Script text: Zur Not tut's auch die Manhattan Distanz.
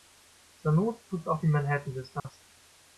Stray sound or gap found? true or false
true